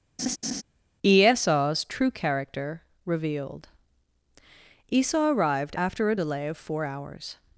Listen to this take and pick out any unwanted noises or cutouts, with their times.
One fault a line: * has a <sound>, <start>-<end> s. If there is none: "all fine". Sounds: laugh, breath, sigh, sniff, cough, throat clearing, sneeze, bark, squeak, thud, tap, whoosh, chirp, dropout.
* has a laugh, 0.2-0.6 s